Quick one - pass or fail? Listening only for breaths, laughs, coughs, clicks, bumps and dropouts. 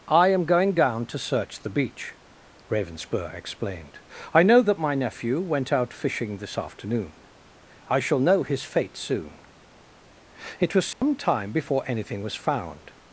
fail